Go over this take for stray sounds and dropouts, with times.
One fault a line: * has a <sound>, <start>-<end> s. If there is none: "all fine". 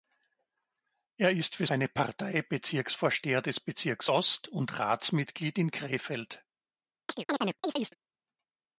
* has a chirp, 7.1-8.0 s